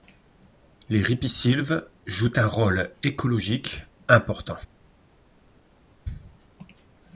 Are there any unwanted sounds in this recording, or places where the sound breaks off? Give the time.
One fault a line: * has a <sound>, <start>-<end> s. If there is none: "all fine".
all fine